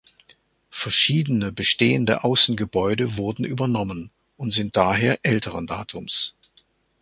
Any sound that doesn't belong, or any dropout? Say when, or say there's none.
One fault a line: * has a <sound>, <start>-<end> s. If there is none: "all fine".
all fine